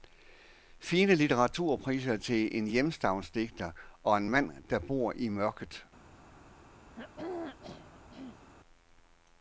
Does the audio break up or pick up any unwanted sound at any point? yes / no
yes